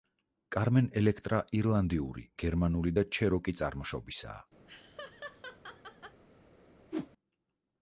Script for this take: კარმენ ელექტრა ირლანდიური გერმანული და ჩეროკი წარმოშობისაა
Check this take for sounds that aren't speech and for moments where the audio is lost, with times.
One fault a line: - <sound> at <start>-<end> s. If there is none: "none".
- laugh at 4.7-6.2 s
- whoosh at 6.9-7.1 s